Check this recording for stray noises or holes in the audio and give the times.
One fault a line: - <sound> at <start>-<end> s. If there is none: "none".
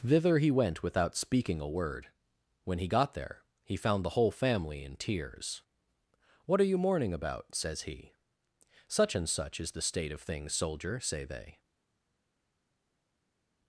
none